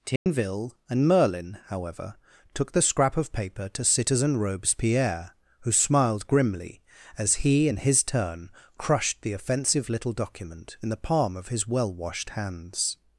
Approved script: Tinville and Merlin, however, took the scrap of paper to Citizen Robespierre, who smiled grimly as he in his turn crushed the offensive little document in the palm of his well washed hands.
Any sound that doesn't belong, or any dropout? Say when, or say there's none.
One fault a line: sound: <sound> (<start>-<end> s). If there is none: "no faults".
sound: dropout (0.2-0.3 s)